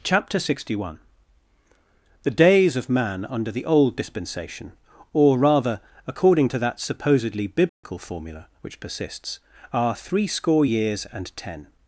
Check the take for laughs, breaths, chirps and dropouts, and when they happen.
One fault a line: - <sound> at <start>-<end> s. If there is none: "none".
- dropout at 7.7-7.8 s